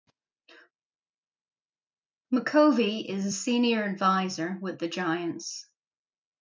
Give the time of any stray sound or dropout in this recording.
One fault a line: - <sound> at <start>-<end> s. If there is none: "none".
none